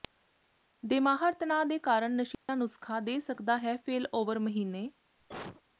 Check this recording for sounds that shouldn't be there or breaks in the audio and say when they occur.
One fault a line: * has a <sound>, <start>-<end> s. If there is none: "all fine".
* has a dropout, 2.3-2.5 s
* has a cough, 5.2-5.6 s